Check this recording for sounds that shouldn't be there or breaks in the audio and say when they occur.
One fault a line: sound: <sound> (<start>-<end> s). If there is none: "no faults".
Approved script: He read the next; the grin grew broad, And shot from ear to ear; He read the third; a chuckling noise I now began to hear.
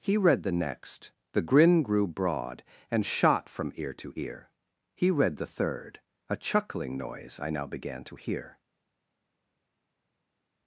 no faults